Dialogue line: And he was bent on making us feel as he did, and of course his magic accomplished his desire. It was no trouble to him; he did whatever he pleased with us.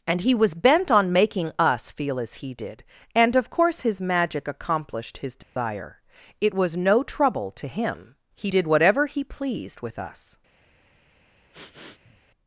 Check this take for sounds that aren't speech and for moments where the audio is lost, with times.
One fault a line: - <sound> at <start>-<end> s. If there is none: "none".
- dropout at 5.4-5.6 s
- sniff at 11.5-12.2 s